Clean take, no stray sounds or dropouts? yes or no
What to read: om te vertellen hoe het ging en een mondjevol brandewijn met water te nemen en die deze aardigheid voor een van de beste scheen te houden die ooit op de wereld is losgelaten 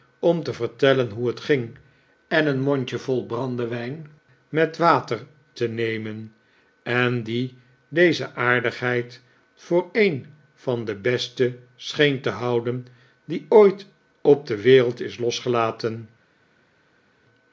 yes